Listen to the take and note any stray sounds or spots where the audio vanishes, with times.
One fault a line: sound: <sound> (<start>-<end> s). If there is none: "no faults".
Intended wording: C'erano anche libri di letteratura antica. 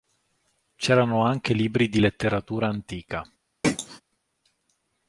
sound: throat clearing (3.6-4.0 s)